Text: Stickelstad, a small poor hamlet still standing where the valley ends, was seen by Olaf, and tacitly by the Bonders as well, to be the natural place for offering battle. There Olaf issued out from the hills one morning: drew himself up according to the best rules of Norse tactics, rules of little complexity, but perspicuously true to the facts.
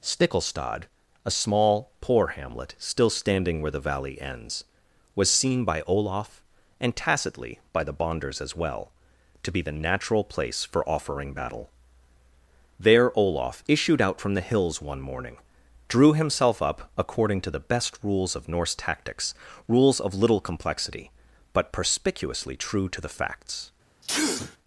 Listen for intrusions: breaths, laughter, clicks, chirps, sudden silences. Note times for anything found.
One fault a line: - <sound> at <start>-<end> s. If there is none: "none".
- sneeze at 24.0-24.6 s